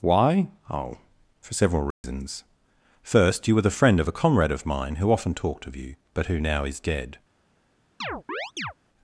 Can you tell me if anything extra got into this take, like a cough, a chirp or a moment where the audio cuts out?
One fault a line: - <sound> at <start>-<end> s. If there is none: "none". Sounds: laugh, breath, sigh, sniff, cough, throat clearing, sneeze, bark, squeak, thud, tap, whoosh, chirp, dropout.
- dropout at 1.9-2.0 s
- chirp at 8.0-8.7 s